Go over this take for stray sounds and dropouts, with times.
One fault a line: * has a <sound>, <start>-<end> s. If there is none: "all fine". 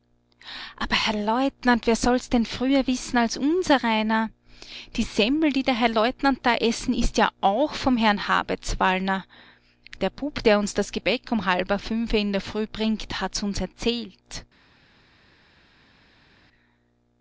all fine